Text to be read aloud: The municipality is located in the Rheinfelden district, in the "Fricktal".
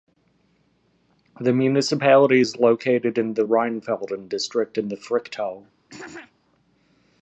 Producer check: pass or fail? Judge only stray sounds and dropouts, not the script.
fail